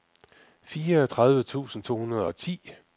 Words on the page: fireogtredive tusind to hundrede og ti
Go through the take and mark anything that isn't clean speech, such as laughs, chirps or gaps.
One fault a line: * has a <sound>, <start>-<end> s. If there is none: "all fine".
all fine